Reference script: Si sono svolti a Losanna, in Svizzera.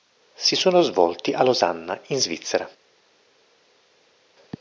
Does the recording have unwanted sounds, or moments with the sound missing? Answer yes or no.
no